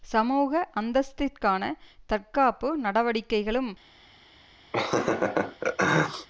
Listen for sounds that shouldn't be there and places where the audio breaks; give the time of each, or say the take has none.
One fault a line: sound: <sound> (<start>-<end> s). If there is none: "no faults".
sound: laugh (4.7-6.3 s)